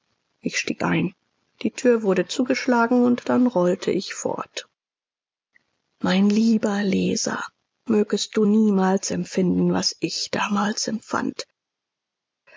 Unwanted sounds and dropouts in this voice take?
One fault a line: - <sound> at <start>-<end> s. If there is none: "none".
none